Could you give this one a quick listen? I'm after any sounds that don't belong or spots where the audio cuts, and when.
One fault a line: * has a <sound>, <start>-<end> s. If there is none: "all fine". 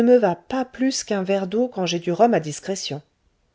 all fine